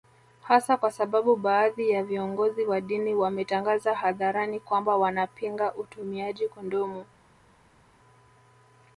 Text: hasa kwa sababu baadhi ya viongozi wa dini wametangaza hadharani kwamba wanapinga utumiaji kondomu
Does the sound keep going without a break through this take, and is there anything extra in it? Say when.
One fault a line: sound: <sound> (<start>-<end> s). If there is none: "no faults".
no faults